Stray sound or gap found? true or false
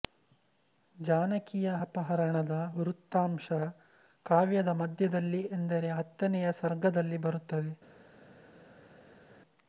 false